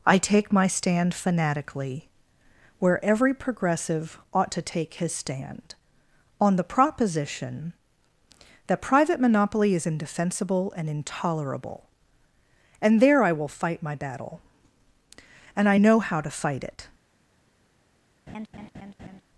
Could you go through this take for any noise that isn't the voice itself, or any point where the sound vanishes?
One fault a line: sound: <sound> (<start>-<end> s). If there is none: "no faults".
sound: laugh (18.3-19.2 s)